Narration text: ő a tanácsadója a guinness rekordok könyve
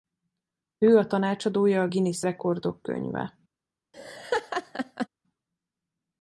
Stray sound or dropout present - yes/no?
yes